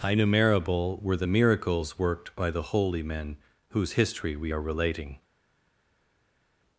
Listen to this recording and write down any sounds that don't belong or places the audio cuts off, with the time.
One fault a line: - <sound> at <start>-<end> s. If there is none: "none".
none